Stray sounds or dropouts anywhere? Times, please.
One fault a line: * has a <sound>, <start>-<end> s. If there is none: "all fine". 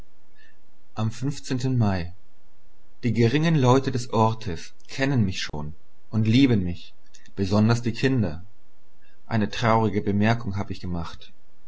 * has a dropout, 5.5-5.5 s